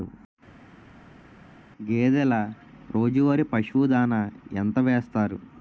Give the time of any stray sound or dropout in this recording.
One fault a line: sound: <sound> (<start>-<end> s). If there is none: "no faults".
no faults